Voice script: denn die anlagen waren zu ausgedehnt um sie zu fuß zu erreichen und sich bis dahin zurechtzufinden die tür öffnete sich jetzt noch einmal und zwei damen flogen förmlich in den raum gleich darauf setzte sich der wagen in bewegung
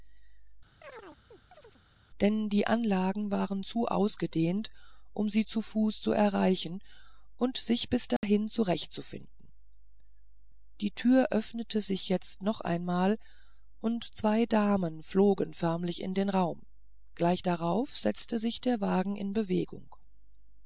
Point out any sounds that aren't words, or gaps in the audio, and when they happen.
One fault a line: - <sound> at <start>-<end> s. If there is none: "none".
- chirp at 0.8-1.8 s
- dropout at 8.2-8.2 s